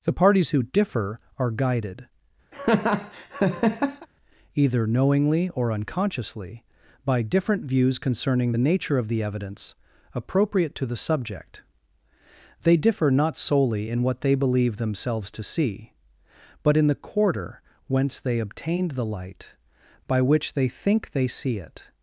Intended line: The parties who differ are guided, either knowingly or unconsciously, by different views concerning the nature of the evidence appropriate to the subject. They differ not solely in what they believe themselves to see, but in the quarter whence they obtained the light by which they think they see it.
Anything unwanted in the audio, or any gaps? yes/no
yes